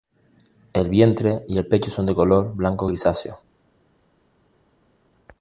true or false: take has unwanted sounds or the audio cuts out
false